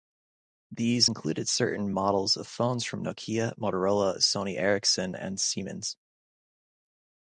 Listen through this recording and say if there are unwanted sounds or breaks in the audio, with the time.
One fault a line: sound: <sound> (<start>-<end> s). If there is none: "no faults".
no faults